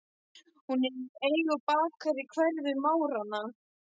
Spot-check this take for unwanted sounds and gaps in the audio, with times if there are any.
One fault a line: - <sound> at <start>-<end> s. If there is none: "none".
none